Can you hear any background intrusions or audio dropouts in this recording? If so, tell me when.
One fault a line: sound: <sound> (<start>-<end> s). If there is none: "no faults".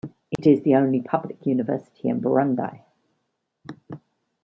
sound: dropout (0.4-0.4 s)